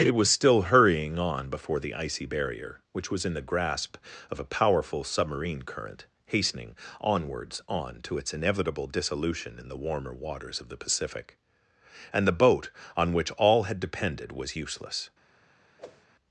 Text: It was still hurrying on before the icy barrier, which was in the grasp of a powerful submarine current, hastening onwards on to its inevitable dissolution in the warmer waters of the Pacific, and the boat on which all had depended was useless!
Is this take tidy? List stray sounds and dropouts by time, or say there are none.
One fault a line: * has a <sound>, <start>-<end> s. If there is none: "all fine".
* has a whoosh, 15.8-16.1 s